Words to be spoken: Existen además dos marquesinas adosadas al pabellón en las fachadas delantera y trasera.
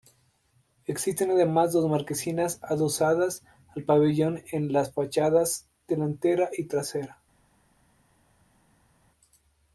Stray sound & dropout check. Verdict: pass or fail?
pass